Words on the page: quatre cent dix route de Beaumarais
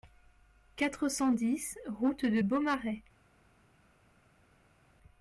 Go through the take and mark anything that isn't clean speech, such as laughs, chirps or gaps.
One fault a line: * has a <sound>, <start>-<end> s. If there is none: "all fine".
all fine